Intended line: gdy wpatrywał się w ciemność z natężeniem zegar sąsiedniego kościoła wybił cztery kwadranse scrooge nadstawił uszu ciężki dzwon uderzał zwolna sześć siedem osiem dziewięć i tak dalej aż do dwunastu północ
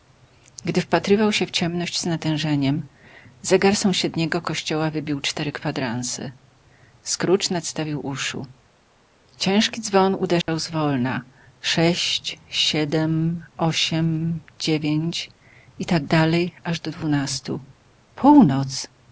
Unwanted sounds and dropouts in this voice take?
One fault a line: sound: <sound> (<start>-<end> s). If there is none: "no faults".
sound: dropout (10.4-10.5 s)